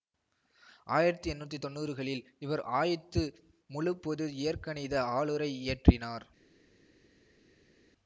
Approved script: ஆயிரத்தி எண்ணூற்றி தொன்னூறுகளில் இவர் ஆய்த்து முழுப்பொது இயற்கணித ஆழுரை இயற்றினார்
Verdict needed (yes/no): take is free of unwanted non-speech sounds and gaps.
yes